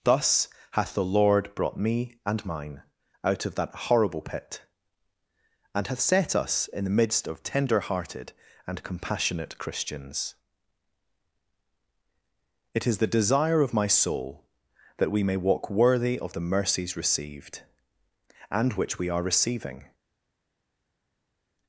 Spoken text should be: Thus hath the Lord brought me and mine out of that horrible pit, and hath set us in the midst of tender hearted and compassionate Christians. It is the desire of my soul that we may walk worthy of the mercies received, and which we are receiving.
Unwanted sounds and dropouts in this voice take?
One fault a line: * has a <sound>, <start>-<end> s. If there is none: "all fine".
all fine